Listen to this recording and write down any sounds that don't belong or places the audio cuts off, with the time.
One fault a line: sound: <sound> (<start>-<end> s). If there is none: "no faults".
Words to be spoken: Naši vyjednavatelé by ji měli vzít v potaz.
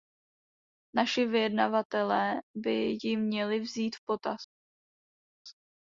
no faults